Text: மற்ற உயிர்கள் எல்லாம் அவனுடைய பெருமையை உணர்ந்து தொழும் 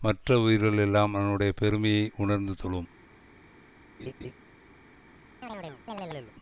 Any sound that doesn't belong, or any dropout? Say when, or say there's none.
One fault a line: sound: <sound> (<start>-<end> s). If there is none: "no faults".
sound: laugh (4.0-4.3 s)
sound: chirp (5.4-6.3 s)